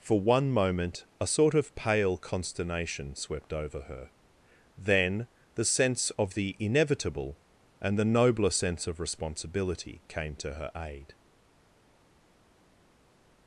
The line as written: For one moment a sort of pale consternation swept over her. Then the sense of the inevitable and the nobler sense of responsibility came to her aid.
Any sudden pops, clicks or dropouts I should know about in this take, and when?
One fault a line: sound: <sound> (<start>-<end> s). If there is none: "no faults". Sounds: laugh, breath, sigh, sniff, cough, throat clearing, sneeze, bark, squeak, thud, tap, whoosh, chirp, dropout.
no faults